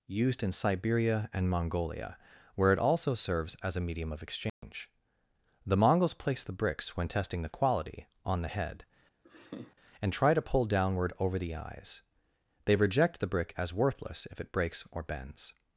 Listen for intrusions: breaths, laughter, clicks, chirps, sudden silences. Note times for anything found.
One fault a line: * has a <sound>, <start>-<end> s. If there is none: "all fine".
* has a dropout, 4.5-4.6 s
* has a laugh, 9.2-9.8 s